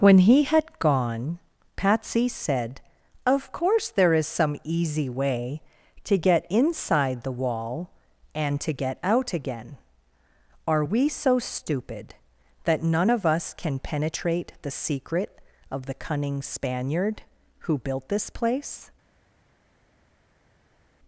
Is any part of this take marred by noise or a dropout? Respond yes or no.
no